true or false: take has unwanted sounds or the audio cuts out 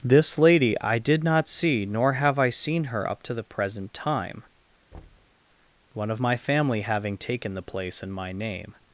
true